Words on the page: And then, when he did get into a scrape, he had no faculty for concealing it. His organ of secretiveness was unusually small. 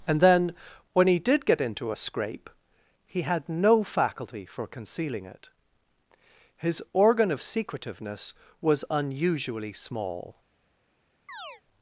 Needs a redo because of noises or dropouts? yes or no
yes